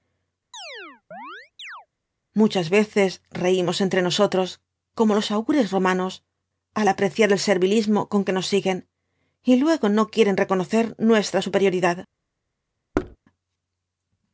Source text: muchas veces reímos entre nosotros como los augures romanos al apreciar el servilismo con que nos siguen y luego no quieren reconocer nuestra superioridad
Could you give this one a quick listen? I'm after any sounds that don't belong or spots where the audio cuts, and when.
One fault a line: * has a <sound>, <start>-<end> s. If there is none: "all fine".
* has a chirp, 0.5-1.9 s
* has a thud, 12.9-13.2 s